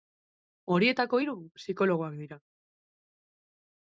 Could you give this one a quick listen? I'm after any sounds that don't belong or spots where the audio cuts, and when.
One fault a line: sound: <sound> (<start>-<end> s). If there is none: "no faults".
no faults